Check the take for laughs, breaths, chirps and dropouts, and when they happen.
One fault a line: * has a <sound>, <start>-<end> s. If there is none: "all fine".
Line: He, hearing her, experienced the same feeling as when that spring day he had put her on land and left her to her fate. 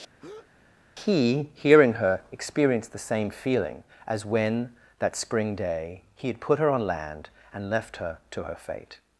* has a breath, 0.2-0.5 s